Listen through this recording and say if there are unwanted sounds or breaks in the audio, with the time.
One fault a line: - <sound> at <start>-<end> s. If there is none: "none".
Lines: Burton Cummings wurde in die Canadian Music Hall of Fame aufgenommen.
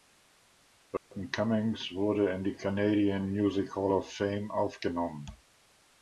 - dropout at 1.0-1.1 s